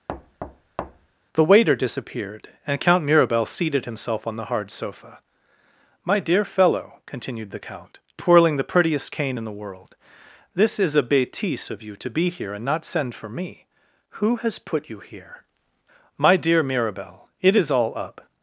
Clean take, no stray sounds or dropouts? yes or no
no